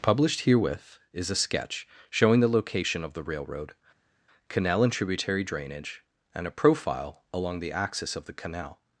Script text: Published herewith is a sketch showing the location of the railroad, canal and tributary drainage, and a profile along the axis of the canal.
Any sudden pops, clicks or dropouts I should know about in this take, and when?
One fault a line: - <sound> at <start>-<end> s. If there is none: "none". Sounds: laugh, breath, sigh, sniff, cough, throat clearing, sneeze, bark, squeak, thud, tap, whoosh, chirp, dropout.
none